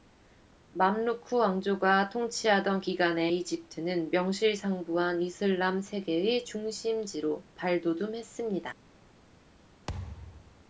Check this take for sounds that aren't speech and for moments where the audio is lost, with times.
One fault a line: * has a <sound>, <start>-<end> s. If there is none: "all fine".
* has a thud, 9.9-10.7 s